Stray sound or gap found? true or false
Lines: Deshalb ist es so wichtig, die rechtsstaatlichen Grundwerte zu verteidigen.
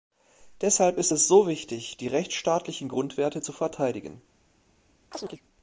true